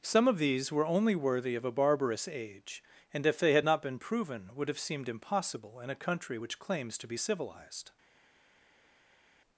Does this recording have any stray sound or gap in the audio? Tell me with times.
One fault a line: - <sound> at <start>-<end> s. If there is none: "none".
none